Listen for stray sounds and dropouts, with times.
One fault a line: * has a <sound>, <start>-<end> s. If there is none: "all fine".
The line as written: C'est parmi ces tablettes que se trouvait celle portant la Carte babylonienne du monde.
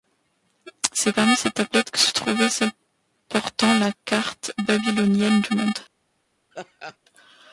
* has a laugh, 6.5-7.0 s